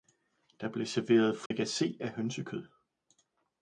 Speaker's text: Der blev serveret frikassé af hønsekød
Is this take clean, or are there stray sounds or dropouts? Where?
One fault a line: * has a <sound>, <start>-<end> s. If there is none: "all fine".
* has a dropout, 1.5-1.5 s